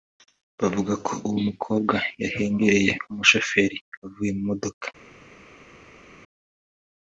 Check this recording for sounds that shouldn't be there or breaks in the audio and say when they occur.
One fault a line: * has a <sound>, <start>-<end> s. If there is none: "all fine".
all fine